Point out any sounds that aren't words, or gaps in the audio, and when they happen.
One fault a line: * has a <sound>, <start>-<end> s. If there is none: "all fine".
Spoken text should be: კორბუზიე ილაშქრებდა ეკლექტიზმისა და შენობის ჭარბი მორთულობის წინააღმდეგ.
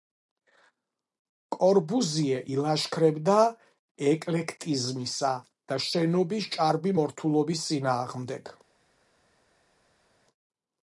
all fine